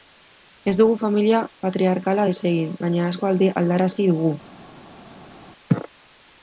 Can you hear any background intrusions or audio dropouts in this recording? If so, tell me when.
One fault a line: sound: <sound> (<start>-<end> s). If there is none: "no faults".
no faults